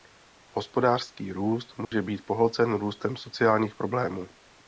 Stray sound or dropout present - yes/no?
yes